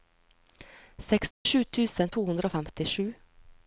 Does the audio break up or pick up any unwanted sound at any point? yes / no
yes